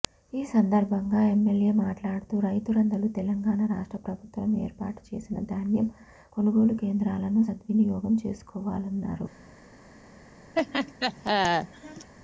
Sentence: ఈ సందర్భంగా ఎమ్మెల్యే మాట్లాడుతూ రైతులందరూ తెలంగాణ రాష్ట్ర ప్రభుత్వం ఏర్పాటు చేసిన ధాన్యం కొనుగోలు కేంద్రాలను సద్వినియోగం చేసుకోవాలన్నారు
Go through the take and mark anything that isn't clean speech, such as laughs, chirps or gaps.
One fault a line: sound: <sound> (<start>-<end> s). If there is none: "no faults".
sound: laugh (10.6-12.1 s)